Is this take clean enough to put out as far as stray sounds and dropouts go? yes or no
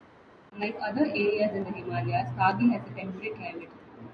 yes